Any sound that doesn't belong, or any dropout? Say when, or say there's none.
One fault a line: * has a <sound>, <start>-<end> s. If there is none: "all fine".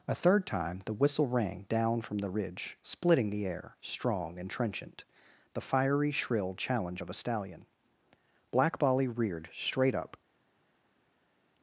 all fine